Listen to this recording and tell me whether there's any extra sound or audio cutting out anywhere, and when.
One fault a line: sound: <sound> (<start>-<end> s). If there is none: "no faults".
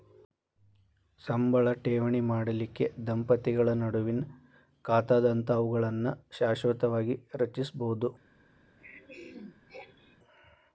sound: throat clearing (8.8-10.2 s)